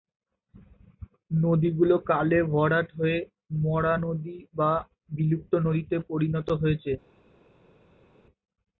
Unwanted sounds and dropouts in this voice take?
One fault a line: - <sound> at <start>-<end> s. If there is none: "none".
none